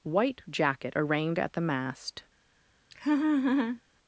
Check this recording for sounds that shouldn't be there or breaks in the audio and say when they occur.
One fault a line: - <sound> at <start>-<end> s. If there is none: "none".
- laugh at 2.9-3.8 s